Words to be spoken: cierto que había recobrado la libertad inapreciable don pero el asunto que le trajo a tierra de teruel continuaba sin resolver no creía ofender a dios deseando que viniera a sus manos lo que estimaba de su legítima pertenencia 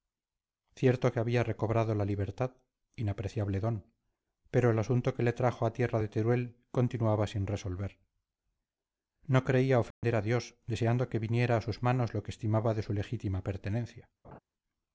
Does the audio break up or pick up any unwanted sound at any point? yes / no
yes